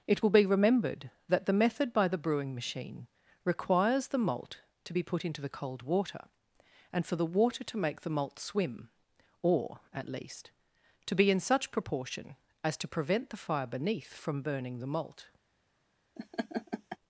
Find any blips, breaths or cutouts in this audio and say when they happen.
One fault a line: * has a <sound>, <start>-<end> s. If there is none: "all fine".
* has a laugh, 16.2-17.0 s